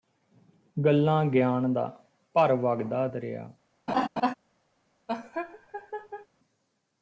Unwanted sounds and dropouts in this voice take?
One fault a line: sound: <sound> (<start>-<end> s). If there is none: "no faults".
sound: laugh (3.9-4.3 s)
sound: laugh (5.1-6.3 s)